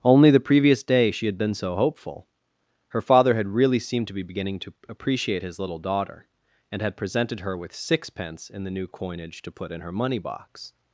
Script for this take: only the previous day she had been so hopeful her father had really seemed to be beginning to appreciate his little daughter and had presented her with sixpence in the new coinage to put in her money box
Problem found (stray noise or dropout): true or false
false